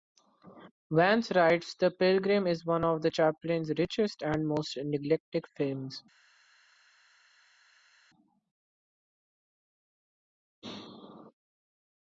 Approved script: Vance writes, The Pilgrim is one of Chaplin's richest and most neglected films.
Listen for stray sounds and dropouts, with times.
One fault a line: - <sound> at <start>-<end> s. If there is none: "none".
none